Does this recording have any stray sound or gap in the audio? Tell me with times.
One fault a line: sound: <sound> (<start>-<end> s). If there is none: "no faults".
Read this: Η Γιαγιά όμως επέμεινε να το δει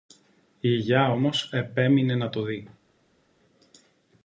no faults